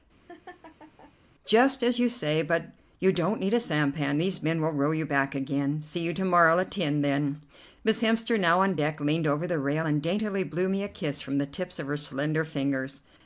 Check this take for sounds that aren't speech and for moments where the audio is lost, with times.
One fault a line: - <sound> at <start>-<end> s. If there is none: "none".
- laugh at 0.3-1.1 s